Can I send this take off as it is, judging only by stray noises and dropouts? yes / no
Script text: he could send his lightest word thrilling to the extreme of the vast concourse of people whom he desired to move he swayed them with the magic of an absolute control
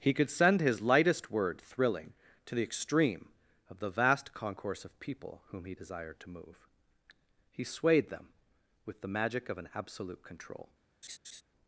no